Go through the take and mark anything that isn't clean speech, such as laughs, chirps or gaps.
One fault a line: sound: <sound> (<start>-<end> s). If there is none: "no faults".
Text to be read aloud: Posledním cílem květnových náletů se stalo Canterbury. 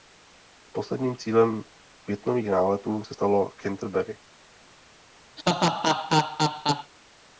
sound: laugh (5.4-6.9 s)